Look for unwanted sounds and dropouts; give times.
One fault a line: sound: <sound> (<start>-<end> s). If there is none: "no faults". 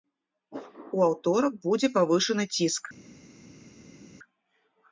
no faults